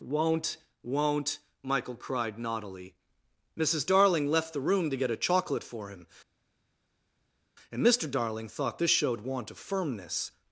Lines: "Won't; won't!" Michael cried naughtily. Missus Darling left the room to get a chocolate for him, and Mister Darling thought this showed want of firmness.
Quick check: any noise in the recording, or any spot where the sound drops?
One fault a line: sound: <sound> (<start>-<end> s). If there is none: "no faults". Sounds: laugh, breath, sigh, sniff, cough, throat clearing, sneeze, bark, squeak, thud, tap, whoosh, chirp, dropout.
no faults